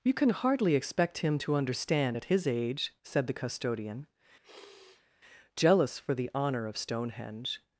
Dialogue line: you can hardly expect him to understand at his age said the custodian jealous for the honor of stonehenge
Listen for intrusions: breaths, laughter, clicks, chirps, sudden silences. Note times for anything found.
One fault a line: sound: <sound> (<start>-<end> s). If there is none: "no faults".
sound: sniff (4.4-5.1 s)